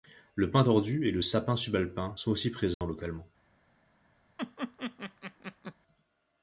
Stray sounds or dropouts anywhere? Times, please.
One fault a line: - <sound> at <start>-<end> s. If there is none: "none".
- dropout at 2.7-2.8 s
- laugh at 4.4-5.7 s